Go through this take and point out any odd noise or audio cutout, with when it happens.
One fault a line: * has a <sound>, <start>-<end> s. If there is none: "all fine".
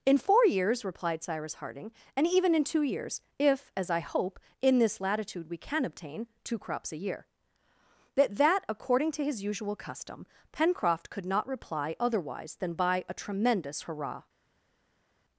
all fine